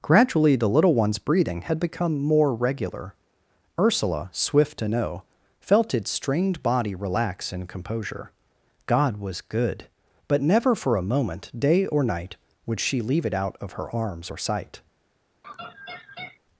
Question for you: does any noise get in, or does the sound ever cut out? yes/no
yes